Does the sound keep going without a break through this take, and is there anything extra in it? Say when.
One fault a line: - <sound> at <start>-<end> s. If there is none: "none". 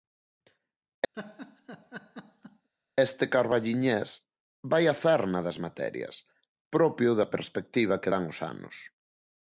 - laugh at 1.1-2.7 s